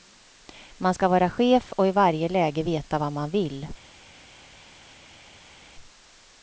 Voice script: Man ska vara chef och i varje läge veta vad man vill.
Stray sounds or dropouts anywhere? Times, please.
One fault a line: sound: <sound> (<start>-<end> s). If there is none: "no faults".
no faults